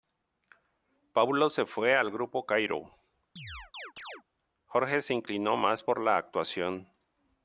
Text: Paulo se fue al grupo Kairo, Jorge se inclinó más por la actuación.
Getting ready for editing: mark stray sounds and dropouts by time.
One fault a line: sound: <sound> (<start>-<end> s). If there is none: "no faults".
sound: chirp (3.4-4.2 s)